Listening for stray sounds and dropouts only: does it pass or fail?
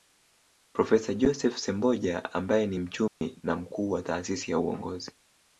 fail